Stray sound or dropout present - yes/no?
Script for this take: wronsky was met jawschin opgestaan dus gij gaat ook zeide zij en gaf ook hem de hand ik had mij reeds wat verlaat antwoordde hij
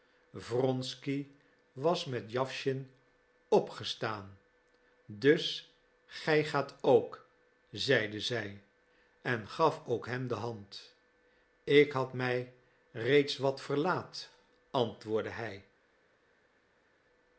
no